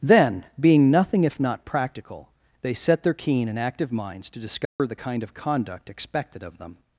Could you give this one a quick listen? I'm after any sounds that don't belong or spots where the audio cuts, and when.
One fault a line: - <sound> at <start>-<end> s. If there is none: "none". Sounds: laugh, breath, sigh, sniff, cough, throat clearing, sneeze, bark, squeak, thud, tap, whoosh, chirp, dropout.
- dropout at 4.7-4.8 s